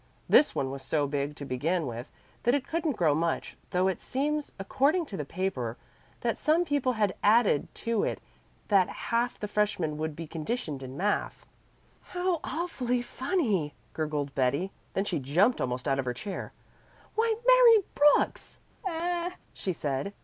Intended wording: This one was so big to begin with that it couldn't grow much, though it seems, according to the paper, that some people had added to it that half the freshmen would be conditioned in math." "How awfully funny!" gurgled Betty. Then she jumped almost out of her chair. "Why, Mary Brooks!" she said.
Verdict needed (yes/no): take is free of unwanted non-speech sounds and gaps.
no